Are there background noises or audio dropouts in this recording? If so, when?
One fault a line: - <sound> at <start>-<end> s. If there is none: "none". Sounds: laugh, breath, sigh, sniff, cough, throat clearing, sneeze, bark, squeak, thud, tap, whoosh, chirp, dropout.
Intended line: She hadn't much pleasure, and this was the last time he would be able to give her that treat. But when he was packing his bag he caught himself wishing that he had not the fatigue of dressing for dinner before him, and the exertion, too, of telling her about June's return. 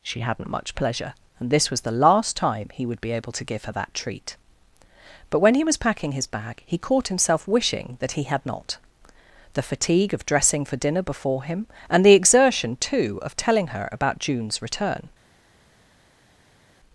none